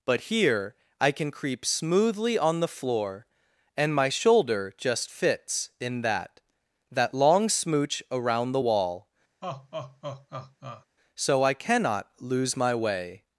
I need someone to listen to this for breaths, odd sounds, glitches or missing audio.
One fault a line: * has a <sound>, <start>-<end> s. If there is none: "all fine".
* has a laugh, 9.4-10.9 s